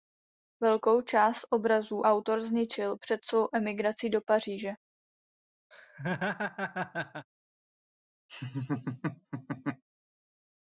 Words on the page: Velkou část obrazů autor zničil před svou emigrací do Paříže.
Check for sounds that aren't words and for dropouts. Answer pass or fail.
fail